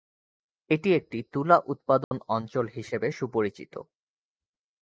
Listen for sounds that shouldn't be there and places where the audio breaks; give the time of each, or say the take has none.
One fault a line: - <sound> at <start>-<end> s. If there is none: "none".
- dropout at 2.0-2.1 s